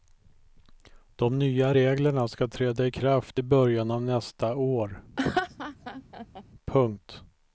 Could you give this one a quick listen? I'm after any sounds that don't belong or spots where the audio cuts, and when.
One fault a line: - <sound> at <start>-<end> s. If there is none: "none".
- laugh at 5.2-6.4 s